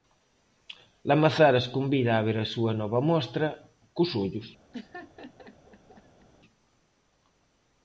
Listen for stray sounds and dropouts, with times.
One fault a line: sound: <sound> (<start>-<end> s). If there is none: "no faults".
sound: laugh (4.7-6.3 s)